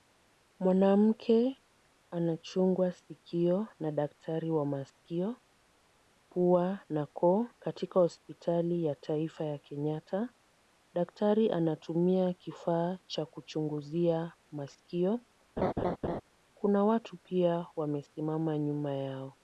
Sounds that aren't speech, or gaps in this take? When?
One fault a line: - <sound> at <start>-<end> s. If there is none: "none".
- laugh at 15.6-16.2 s